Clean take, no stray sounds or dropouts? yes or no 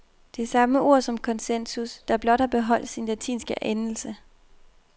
yes